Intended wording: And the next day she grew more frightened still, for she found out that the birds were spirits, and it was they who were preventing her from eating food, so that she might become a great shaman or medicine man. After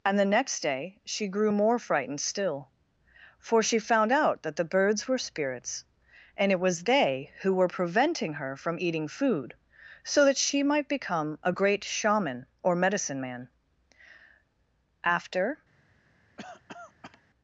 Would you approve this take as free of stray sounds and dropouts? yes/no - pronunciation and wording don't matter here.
no